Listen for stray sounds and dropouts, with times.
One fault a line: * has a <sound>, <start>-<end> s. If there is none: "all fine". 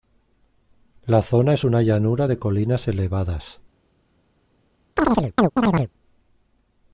* has a chirp, 5.0-5.9 s